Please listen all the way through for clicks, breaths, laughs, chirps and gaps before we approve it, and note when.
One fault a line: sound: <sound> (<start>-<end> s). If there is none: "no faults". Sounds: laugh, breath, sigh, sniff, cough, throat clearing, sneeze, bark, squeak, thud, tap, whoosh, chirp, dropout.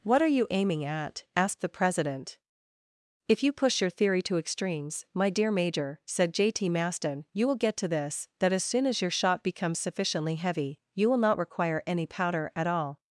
no faults